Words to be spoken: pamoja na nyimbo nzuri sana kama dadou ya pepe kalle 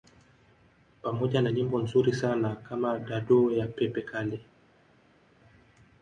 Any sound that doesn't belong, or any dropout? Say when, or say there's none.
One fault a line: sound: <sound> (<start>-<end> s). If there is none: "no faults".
no faults